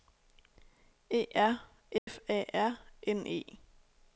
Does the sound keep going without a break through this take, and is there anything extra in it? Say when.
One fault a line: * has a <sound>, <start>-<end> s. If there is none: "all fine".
* has a dropout, 2.0-2.1 s